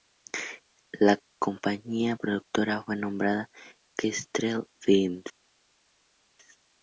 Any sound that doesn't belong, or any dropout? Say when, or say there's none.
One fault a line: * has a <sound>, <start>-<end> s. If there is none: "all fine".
all fine